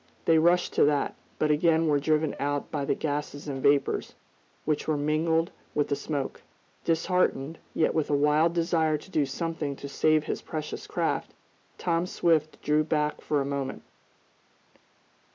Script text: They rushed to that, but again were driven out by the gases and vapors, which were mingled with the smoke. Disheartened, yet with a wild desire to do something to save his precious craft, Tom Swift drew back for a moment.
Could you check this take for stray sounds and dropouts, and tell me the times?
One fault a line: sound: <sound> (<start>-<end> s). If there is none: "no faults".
no faults